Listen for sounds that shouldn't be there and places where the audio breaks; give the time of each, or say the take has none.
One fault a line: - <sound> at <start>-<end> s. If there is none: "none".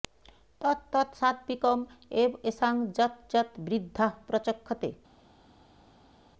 none